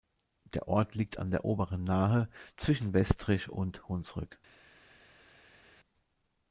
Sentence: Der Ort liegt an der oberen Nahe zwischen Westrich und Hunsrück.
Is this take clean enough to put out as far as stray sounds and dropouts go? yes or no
yes